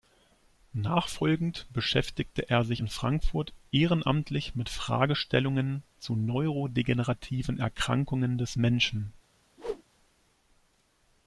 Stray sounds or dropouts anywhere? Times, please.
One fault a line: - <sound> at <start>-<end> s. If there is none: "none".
- whoosh at 9.6-9.8 s